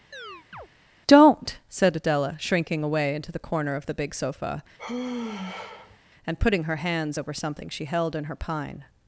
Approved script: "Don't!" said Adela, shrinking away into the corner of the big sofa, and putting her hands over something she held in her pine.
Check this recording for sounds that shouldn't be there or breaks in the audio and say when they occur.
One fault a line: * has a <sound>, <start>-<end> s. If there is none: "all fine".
* has a chirp, 0.1-0.7 s
* has a sigh, 4.8-6.0 s